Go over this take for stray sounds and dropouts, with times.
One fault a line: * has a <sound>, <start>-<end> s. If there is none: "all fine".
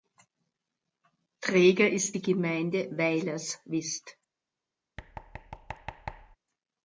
* has a thud, 5.0-6.4 s